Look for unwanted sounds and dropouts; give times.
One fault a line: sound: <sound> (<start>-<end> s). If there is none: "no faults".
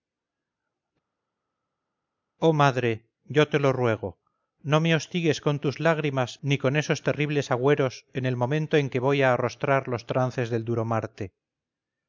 no faults